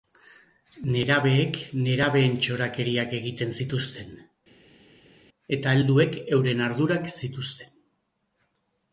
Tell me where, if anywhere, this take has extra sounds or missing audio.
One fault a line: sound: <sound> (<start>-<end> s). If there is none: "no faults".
no faults